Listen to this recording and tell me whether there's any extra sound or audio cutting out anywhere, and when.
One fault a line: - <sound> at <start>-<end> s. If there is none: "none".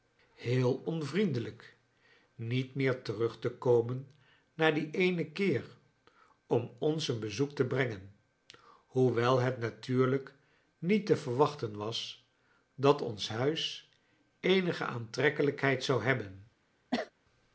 - cough at 16.9-17.1 s